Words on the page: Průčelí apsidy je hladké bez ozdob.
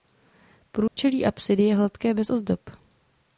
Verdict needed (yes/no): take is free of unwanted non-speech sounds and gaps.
no